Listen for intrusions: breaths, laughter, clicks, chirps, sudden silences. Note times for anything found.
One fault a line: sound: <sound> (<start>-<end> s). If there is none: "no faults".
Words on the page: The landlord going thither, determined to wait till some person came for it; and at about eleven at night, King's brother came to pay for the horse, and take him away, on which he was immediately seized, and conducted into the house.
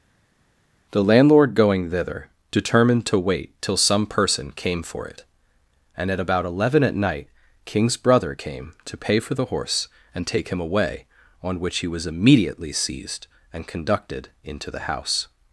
no faults